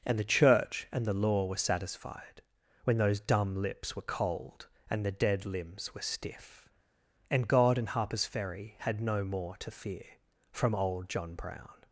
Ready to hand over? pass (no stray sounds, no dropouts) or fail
pass